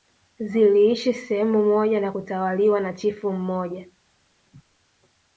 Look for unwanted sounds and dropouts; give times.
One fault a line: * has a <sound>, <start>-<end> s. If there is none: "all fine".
all fine